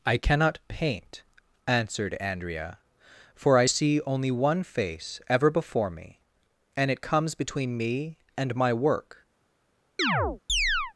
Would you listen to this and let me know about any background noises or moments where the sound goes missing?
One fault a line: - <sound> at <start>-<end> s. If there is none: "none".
- chirp at 10.0-10.9 s